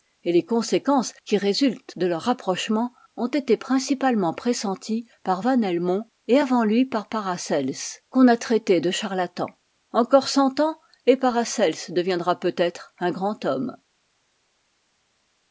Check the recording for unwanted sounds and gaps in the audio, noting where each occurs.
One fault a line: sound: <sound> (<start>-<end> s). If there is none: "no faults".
no faults